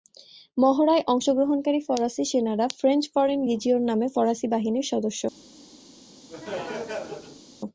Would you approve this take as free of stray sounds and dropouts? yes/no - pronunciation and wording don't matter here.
no